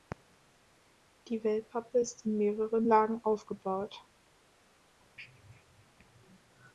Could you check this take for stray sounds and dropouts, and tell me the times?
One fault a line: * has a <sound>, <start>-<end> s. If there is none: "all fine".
all fine